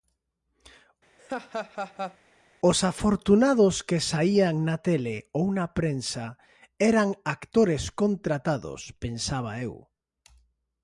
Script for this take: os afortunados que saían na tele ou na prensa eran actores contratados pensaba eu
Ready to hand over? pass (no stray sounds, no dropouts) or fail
fail